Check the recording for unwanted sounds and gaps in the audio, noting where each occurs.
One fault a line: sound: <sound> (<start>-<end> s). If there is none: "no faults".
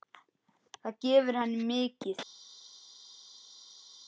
no faults